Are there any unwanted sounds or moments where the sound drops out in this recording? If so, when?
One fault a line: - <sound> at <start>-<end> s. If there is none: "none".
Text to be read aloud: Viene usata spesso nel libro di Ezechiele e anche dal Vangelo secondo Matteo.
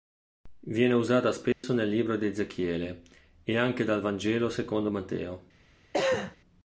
- dropout at 1.5-1.6 s
- cough at 5.9-6.4 s